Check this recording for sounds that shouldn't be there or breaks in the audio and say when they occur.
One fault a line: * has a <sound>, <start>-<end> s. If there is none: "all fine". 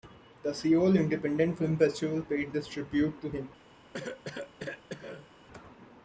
* has a cough, 3.9-5.3 s